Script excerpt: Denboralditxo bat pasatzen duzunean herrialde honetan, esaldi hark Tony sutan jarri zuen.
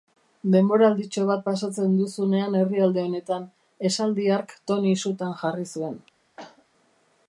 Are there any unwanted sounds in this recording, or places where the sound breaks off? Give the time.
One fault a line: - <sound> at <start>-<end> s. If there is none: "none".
- cough at 6.4-6.7 s